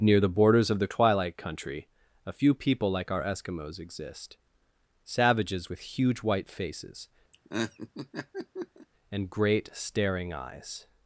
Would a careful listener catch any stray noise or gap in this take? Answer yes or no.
yes